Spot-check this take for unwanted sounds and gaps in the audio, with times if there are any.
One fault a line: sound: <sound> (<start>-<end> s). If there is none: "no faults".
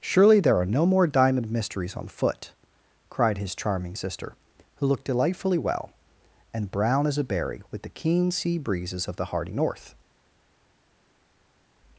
no faults